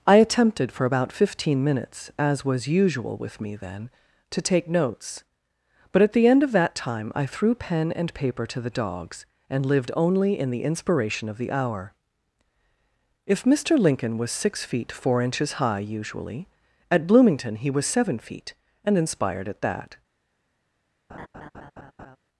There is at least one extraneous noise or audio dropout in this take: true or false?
true